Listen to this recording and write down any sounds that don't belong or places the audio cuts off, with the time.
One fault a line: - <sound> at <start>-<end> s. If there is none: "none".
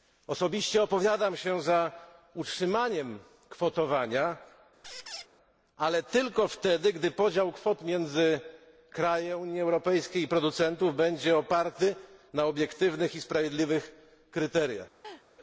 - squeak at 4.8-5.3 s
- laugh at 15.0-15.3 s